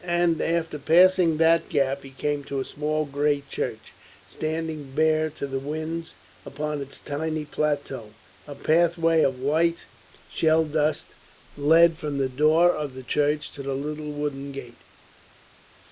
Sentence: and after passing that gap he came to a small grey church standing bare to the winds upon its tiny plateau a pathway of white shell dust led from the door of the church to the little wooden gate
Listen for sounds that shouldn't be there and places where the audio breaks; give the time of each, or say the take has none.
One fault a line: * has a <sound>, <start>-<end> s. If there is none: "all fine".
all fine